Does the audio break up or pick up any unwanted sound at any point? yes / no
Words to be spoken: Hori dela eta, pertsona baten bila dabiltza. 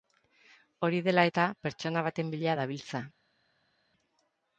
no